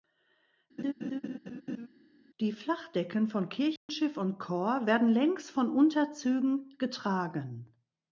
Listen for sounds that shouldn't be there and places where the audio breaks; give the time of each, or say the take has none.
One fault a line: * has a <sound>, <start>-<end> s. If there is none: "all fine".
* has a laugh, 0.8-1.9 s
* has a dropout, 3.8-3.9 s